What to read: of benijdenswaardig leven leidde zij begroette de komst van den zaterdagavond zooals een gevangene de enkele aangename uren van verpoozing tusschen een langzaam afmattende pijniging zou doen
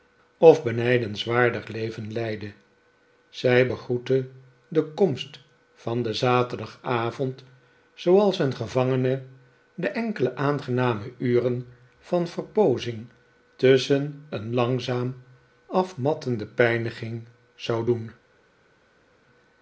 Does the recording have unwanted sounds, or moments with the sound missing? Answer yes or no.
no